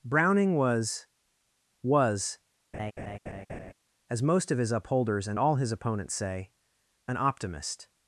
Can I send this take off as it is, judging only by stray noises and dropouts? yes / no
no